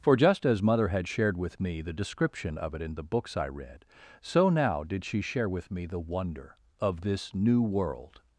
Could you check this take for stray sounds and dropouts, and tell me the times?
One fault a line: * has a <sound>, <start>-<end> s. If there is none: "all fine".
all fine